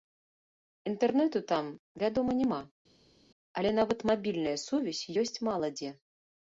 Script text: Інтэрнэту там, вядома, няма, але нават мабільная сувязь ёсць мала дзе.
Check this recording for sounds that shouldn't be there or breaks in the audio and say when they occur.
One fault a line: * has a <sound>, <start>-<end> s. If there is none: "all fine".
all fine